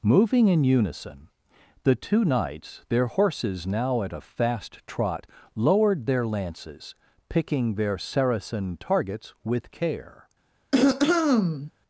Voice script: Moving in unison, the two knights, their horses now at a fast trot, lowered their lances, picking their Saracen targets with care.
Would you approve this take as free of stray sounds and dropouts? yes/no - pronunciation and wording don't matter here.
no